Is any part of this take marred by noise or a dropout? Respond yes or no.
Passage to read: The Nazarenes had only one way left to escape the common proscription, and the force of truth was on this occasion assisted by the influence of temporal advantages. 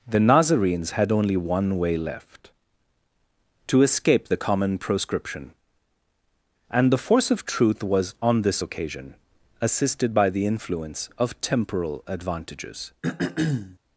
yes